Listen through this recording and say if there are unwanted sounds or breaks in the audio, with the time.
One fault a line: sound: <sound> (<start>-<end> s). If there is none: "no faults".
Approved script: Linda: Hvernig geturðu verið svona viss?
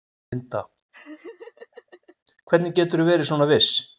sound: laugh (0.9-2.2 s)